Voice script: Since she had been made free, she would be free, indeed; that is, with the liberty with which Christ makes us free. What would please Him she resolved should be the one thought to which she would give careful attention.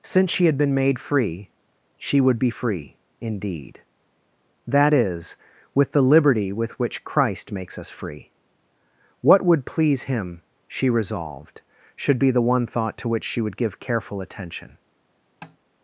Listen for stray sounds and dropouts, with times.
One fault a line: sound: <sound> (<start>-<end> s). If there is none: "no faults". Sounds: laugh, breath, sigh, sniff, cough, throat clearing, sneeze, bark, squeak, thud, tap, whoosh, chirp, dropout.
sound: tap (15.4-15.6 s)